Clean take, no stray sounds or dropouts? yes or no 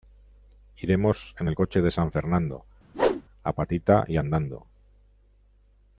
no